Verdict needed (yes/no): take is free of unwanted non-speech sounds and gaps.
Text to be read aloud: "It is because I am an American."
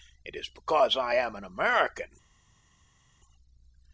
yes